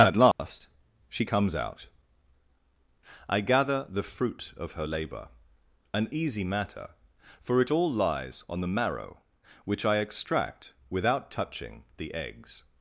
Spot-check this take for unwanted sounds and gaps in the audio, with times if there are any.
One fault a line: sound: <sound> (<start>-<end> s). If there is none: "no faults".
sound: dropout (0.3-0.4 s)